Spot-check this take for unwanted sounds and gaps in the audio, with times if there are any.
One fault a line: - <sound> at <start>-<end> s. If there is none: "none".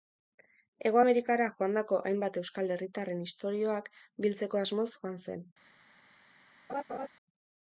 - laugh at 6.7-7.1 s